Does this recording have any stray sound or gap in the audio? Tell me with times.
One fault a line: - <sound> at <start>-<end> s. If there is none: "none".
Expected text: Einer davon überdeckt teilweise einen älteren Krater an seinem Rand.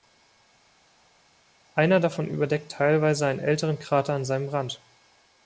none